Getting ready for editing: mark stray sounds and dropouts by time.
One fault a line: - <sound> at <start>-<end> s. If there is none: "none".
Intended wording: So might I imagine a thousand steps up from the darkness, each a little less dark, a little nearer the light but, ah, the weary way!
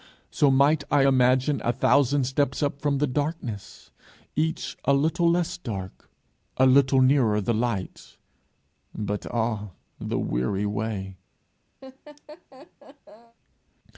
- laugh at 11.8-13.4 s